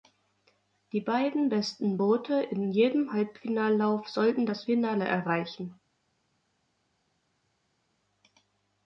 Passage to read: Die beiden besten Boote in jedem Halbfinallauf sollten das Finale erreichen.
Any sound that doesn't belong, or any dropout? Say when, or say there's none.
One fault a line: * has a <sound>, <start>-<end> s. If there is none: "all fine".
all fine